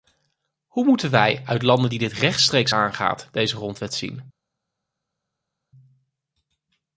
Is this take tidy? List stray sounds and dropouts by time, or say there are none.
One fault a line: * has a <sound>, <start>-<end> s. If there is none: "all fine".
all fine